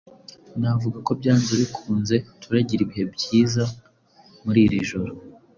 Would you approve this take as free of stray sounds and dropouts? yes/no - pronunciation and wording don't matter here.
yes